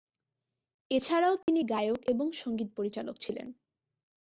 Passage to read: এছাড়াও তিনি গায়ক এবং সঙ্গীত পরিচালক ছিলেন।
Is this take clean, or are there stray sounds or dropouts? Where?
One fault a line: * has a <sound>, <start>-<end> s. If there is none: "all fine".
* has a dropout, 1.4-1.5 s